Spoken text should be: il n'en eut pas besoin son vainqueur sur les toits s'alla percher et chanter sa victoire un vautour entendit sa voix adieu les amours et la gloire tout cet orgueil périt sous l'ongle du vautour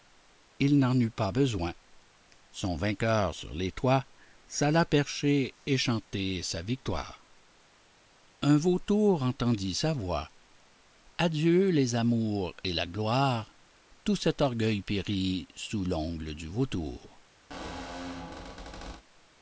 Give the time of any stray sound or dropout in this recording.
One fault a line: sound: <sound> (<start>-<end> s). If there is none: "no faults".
sound: squeak (17.5-19.0 s)